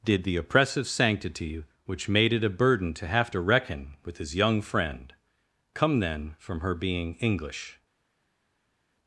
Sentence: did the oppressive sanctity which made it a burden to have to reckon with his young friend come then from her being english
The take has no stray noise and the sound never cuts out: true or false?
true